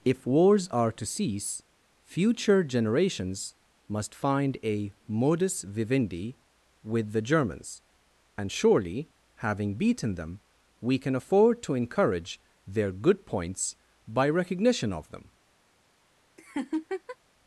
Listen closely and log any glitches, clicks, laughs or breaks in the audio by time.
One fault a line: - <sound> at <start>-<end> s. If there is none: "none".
- laugh at 16.4-17.2 s